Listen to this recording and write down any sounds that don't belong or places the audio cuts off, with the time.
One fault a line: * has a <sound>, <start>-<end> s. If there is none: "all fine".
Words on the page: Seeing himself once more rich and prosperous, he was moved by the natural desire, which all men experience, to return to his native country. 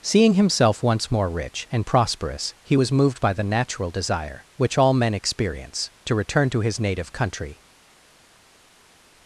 all fine